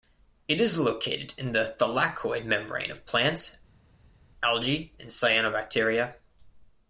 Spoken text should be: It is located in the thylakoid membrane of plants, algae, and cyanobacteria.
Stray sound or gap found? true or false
false